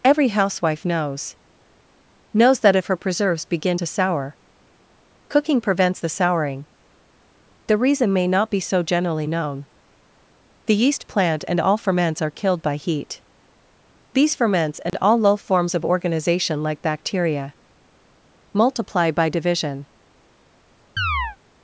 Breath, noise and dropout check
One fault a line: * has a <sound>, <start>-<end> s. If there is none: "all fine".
* has a dropout, 14.9-14.9 s
* has a chirp, 21.0-21.4 s